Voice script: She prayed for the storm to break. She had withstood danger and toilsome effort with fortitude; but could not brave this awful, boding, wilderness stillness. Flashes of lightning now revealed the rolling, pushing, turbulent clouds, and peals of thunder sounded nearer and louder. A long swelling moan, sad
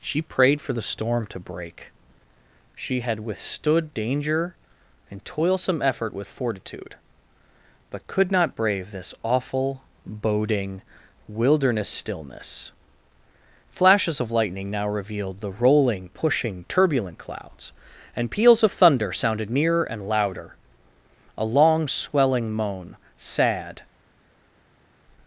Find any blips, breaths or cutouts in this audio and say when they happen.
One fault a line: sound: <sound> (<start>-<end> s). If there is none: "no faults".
no faults